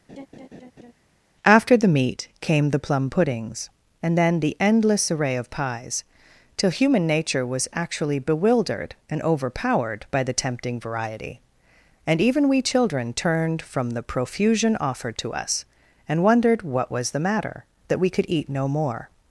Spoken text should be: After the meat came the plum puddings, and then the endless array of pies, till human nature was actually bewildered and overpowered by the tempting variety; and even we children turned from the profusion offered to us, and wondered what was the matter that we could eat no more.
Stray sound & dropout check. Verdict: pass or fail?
fail